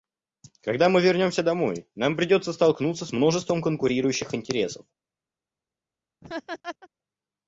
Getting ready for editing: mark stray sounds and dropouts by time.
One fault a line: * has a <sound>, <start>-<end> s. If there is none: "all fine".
* has a laugh, 6.2-6.9 s